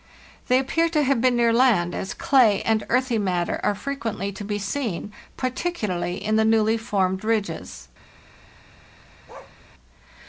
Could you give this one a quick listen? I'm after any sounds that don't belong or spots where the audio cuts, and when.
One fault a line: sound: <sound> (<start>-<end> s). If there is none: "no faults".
sound: bark (9.3-9.6 s)